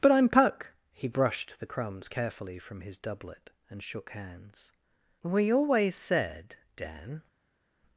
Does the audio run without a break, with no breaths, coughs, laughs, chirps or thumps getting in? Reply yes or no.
yes